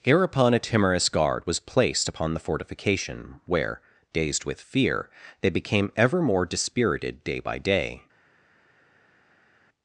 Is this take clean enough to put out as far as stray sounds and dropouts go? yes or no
yes